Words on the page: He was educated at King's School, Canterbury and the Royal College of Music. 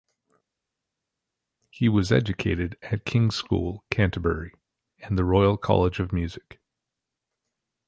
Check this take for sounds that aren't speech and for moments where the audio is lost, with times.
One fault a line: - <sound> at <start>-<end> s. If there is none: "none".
none